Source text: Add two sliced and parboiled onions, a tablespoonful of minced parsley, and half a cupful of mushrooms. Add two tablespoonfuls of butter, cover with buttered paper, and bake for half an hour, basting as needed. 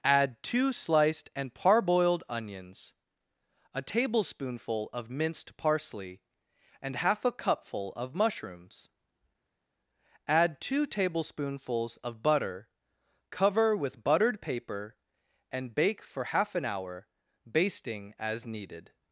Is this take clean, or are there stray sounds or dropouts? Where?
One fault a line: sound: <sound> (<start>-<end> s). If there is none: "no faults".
no faults